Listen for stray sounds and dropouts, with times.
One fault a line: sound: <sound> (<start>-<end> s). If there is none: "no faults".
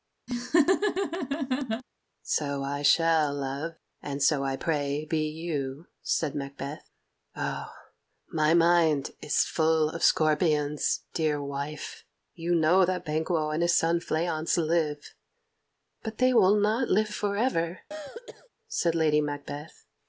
sound: laugh (0.3-1.8 s)
sound: throat clearing (17.9-18.5 s)